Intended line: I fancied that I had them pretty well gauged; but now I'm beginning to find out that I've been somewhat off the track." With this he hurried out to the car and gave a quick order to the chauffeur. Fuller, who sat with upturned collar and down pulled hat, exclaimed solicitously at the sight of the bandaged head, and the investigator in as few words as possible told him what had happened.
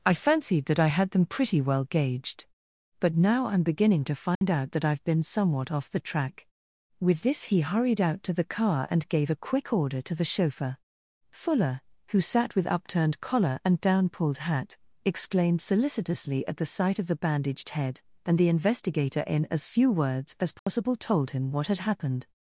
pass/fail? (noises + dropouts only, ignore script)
fail